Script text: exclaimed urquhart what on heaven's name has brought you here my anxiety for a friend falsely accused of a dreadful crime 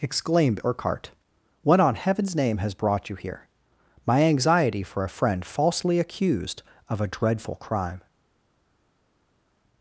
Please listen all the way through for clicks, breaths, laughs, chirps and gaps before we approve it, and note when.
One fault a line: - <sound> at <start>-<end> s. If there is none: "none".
none